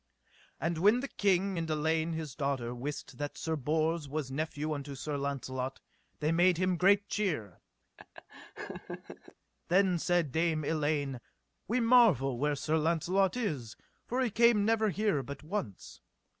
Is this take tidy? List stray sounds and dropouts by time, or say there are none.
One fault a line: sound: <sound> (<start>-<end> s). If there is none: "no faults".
sound: laugh (8.0-9.3 s)